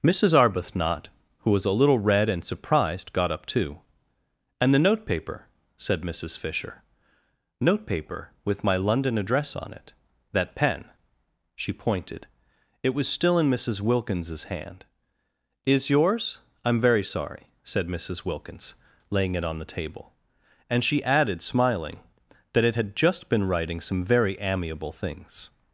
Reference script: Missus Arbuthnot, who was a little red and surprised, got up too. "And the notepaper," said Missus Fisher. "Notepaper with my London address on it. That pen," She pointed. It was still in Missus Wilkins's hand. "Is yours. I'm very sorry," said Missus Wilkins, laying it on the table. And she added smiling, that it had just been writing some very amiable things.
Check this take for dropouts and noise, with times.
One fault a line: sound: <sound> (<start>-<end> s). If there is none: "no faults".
no faults